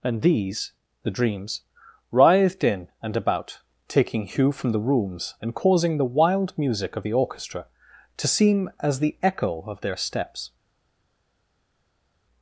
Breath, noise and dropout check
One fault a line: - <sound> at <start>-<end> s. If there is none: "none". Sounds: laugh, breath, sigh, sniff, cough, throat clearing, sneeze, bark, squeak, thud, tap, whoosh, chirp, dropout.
none